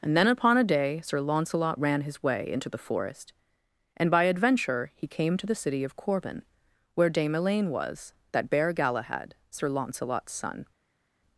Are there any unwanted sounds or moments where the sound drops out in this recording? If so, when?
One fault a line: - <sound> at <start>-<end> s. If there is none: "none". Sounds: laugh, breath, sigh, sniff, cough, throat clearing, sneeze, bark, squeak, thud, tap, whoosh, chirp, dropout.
none